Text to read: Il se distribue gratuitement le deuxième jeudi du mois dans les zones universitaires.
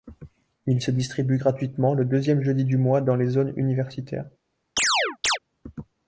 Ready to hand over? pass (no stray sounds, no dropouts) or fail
fail